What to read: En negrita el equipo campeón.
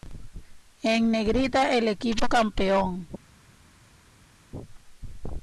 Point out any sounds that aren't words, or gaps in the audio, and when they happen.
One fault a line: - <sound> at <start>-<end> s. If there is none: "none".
none